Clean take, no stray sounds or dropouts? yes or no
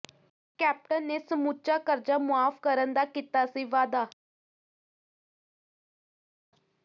yes